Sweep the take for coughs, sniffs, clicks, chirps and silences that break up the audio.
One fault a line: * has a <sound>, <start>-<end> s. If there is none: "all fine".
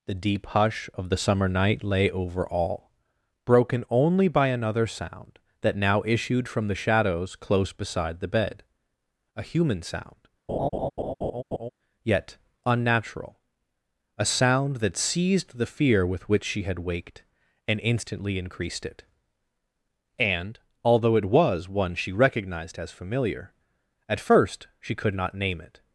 * has a laugh, 10.5-11.7 s